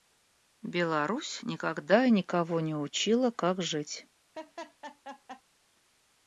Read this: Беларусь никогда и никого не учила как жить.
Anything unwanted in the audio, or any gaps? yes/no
yes